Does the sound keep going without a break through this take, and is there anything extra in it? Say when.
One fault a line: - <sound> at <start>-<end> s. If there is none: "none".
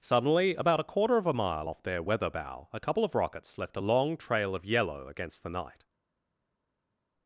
none